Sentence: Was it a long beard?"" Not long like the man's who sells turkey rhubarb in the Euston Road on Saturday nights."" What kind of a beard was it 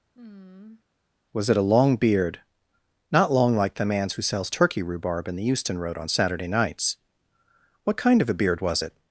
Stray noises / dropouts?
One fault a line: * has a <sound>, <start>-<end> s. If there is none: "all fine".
* has a sigh, 0.1-0.8 s